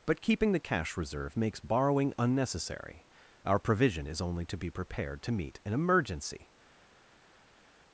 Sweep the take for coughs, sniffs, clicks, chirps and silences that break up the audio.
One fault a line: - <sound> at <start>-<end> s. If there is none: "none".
none